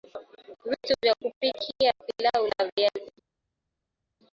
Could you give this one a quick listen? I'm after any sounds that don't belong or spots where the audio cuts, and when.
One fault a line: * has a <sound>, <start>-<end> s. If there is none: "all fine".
all fine